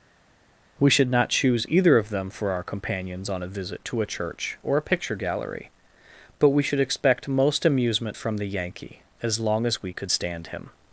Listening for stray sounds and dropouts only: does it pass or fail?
pass